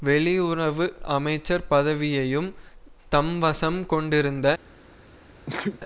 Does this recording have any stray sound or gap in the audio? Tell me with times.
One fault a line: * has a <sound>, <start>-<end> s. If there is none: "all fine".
* has a sneeze, 5.5-5.8 s